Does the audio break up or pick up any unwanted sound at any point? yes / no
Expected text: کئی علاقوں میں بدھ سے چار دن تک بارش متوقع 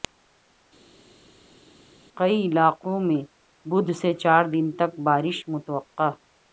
no